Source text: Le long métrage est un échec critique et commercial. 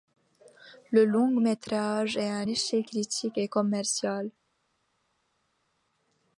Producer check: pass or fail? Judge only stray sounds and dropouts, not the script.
pass